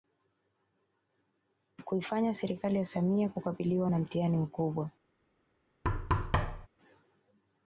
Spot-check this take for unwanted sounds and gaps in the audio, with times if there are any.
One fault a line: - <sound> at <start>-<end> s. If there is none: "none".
- thud at 5.8-6.7 s